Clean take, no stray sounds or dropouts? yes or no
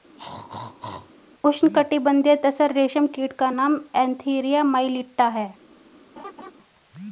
no